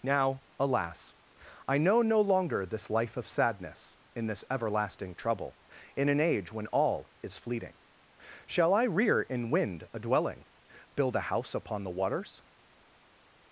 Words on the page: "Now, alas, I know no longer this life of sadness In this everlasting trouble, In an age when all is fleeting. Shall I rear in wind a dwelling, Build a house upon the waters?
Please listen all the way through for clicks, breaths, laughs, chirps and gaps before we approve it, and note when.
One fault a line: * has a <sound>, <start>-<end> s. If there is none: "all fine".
all fine